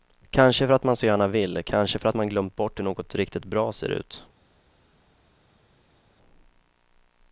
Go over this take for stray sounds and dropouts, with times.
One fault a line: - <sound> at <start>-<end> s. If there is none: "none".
none